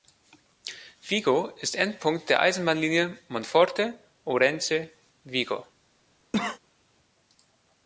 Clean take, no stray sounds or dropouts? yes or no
no